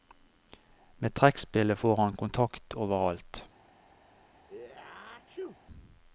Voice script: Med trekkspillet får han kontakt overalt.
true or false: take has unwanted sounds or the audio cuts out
true